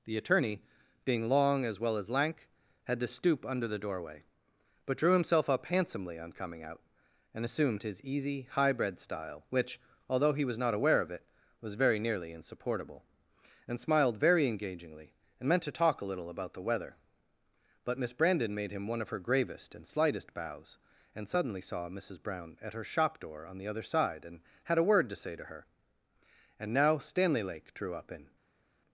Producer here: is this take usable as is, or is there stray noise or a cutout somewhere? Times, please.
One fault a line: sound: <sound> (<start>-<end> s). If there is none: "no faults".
no faults